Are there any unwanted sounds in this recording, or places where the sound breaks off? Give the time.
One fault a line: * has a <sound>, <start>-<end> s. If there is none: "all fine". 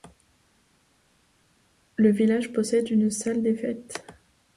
all fine